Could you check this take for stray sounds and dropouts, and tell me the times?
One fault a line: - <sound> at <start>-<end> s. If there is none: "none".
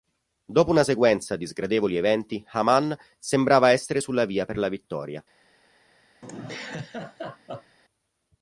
- laugh at 6.2-7.8 s